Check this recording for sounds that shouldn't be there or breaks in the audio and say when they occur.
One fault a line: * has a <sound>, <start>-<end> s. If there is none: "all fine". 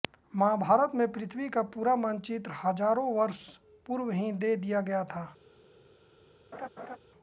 * has a laugh, 6.5-7.0 s